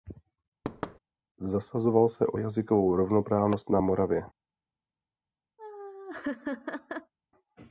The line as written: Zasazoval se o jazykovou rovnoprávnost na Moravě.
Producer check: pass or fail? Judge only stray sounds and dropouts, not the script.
fail